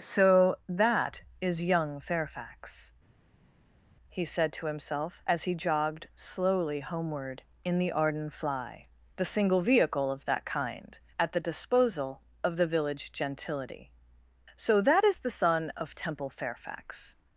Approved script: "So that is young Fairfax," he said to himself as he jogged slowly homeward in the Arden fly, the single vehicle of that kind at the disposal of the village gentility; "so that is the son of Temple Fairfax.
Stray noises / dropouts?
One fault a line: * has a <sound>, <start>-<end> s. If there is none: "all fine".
all fine